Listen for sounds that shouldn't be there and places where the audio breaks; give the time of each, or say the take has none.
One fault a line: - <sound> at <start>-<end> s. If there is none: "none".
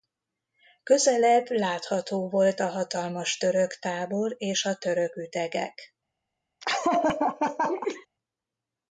- laugh at 6.6-8.1 s